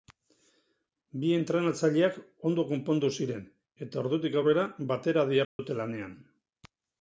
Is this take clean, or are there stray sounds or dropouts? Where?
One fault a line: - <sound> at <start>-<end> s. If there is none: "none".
- dropout at 5.4-5.6 s